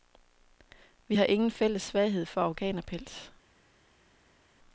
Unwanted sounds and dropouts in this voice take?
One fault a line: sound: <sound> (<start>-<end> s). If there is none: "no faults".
no faults